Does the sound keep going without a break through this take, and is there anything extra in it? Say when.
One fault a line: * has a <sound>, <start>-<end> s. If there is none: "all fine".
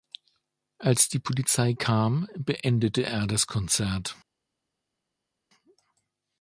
all fine